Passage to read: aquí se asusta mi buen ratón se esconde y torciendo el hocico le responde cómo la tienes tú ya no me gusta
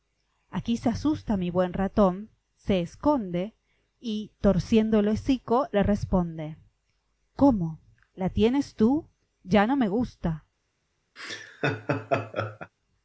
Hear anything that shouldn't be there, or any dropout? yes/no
yes